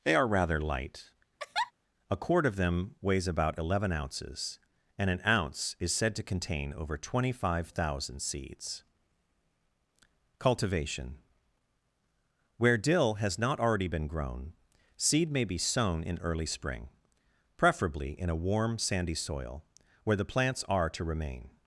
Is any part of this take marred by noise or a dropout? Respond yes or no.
yes